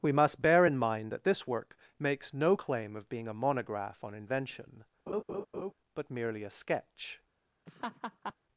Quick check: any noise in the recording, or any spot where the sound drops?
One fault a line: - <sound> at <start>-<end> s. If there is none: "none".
- laugh at 5.1-5.7 s
- laugh at 7.7-8.3 s